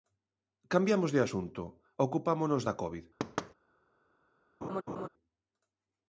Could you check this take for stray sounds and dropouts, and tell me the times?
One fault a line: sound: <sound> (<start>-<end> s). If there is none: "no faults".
sound: thud (3.2-3.5 s)
sound: laugh (4.6-5.1 s)